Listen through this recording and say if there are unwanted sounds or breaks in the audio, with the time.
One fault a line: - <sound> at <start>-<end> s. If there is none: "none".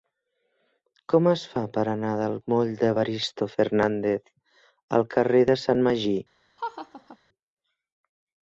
- laugh at 6.6-7.2 s